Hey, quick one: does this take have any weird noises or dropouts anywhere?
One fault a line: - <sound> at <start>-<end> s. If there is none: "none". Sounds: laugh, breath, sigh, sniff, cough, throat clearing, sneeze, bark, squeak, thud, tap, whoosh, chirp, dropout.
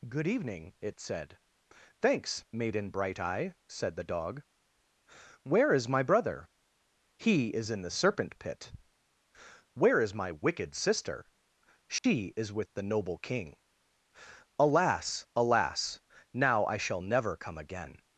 - dropout at 12.0-12.0 s